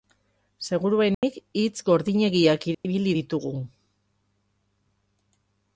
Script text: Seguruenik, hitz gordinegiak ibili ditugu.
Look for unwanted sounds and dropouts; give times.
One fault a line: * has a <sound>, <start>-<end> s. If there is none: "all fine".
* has a dropout, 1.1-1.2 s
* has a dropout, 2.7-2.8 s